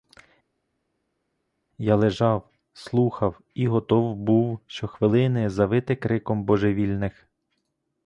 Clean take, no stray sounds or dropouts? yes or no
yes